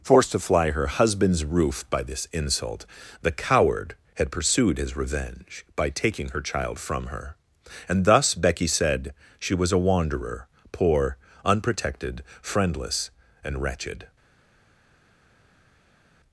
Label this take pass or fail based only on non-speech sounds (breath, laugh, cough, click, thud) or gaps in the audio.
pass